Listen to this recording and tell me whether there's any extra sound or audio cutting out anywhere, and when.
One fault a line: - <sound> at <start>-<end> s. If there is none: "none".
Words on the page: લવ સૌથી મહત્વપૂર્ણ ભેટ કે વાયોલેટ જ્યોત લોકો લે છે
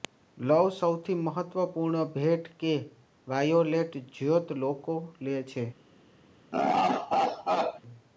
- laugh at 6.5-7.8 s